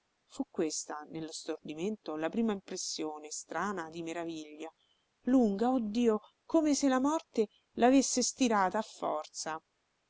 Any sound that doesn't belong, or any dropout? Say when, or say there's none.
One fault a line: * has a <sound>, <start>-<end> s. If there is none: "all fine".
all fine